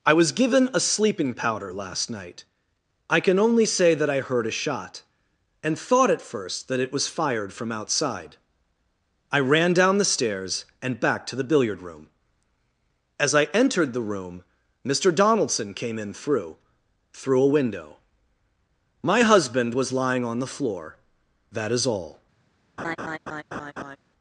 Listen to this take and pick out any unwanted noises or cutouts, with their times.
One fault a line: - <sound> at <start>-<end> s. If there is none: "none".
- laugh at 22.8-24.0 s